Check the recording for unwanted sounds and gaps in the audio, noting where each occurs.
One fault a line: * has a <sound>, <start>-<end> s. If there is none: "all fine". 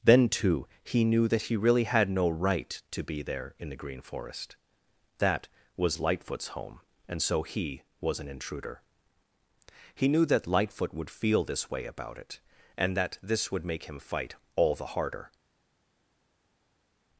all fine